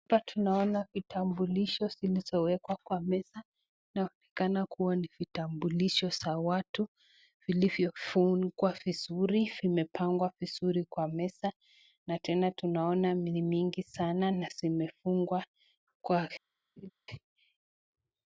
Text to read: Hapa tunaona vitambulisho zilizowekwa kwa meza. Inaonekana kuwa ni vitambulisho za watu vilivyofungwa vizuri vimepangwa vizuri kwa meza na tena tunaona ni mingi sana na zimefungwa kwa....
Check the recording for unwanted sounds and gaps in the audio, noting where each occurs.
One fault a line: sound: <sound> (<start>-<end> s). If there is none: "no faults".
sound: laugh (16.8-16.9 s)